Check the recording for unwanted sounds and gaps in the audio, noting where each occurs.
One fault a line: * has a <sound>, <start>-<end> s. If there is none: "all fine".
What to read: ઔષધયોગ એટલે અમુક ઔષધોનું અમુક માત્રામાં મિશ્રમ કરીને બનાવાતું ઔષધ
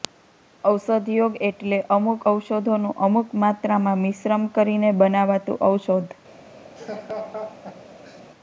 * has a laugh, 6.8-8.2 s